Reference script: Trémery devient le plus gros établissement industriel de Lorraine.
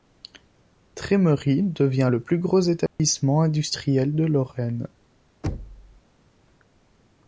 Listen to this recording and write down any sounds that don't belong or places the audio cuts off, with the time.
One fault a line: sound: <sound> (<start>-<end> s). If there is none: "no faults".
sound: dropout (2.9-3.0 s)
sound: thud (5.4-6.0 s)